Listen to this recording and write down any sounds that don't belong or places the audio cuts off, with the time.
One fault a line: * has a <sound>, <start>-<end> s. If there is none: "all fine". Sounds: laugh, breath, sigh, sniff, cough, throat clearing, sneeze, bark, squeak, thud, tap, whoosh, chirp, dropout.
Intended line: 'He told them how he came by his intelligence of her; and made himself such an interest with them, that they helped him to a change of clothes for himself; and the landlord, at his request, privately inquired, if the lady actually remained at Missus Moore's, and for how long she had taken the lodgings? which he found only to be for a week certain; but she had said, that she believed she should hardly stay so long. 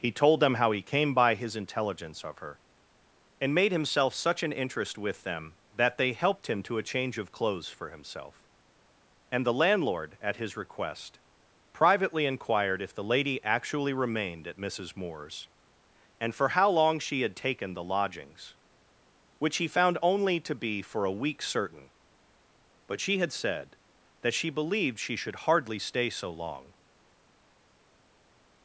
all fine